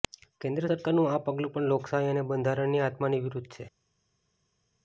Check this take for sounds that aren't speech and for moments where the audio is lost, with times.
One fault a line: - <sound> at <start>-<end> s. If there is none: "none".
none